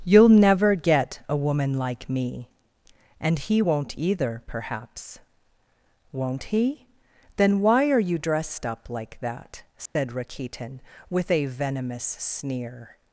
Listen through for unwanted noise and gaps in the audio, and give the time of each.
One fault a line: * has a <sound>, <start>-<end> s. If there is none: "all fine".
* has a dropout, 9.9-10.0 s